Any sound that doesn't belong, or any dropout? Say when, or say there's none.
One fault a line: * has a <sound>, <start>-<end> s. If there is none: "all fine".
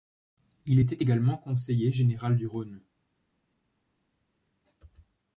all fine